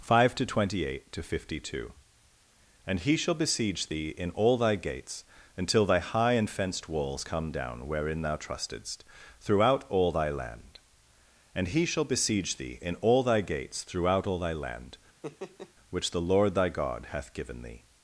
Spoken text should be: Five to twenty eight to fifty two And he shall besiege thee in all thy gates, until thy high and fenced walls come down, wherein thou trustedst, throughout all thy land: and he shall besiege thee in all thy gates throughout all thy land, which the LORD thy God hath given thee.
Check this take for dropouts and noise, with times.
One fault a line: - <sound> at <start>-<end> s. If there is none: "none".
- laugh at 15.2-15.7 s